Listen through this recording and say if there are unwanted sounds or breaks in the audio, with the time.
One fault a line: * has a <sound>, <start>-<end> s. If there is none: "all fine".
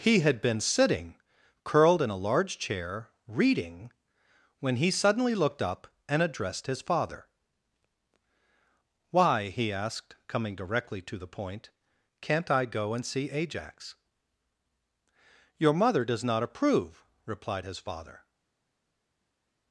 all fine